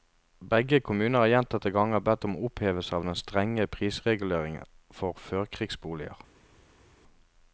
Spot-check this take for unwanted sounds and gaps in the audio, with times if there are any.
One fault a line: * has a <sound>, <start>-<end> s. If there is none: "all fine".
all fine